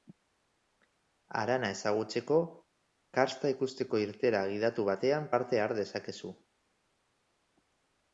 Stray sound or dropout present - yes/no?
no